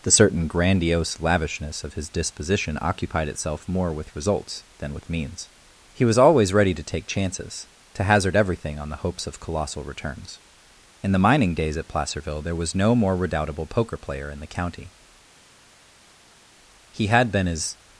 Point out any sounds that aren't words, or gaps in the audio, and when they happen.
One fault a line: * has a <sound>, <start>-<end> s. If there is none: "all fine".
all fine